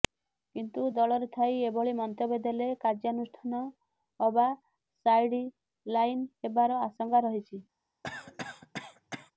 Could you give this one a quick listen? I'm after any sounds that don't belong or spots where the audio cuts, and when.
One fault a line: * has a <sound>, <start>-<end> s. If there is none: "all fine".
* has a cough, 8.0-9.3 s